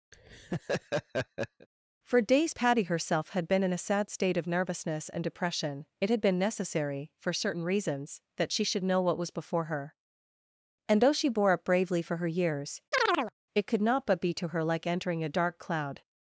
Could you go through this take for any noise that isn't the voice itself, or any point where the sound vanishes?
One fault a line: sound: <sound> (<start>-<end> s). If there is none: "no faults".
sound: laugh (0.1-1.7 s)
sound: chirp (12.9-13.3 s)